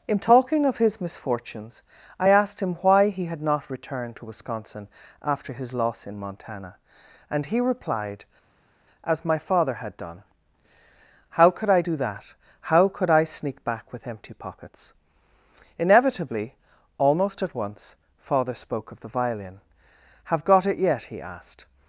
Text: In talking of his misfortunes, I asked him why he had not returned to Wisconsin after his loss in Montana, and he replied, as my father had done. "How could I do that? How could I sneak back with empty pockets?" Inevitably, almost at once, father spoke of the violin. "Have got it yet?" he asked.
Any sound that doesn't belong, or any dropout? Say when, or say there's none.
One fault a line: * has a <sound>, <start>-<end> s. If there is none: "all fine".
all fine